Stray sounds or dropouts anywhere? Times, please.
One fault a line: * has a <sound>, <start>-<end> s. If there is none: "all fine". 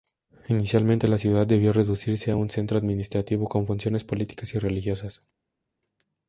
all fine